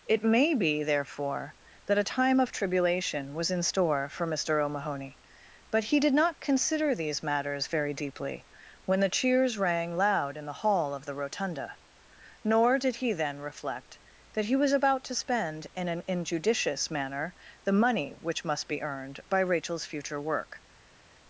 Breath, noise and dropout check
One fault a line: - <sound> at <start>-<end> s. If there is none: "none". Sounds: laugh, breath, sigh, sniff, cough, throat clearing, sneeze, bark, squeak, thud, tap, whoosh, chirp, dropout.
none